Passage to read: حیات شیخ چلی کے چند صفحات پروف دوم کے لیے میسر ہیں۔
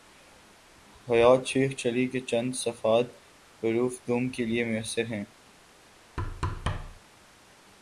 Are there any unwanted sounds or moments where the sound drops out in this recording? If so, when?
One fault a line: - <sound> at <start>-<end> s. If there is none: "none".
- thud at 6.2-7.0 s